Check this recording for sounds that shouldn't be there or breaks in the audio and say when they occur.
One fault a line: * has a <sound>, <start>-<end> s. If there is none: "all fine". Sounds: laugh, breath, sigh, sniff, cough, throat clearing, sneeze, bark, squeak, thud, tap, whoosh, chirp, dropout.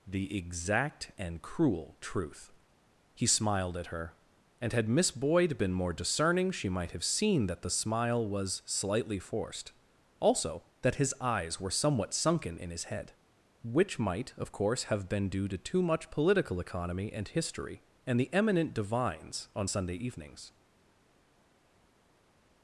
all fine